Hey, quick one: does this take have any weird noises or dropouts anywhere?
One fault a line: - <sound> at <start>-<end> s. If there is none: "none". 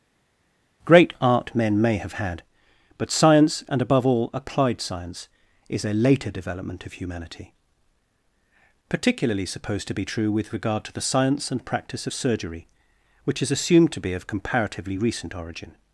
none